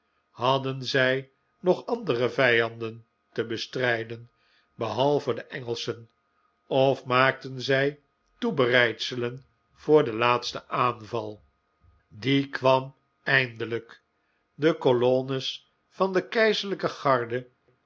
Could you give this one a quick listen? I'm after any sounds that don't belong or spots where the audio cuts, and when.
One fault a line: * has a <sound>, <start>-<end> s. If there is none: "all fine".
all fine